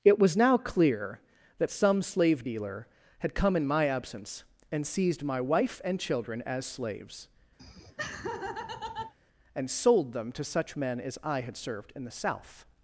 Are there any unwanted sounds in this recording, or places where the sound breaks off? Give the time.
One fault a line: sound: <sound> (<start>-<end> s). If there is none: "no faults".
sound: laugh (7.6-9.1 s)